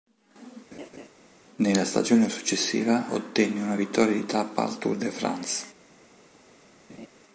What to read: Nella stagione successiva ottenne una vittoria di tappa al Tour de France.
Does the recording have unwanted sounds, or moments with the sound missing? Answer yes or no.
yes